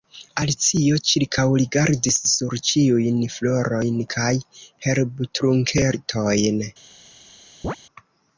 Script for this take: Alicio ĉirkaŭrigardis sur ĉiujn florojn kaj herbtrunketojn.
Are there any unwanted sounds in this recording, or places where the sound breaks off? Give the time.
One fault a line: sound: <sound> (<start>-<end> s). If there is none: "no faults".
sound: chirp (7.6-7.8 s)